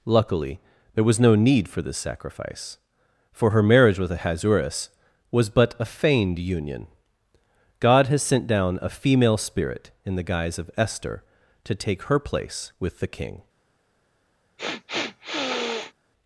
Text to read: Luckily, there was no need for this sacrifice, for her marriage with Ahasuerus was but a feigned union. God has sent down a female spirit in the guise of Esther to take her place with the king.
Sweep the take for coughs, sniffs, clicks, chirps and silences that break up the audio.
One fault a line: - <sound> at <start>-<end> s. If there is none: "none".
- sniff at 14.6-15.9 s